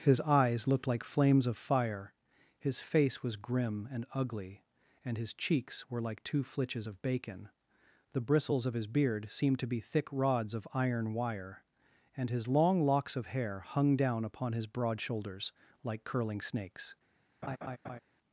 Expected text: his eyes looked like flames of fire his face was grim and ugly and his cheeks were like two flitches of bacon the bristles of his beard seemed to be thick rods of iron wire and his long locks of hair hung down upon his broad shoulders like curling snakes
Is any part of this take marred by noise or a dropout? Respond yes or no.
yes